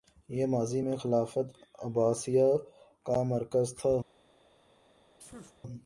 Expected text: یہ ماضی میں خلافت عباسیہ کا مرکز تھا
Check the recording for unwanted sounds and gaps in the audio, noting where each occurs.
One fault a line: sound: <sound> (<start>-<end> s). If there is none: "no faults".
sound: sneeze (5.2-5.6 s)